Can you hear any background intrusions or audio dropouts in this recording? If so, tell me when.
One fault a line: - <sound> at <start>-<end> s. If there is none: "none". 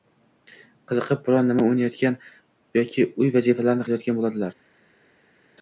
none